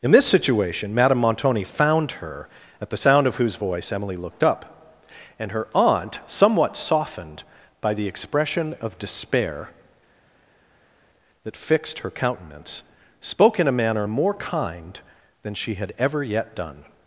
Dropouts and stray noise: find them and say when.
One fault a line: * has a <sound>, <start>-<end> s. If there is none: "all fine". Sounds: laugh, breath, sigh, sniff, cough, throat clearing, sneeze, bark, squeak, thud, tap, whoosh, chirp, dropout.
all fine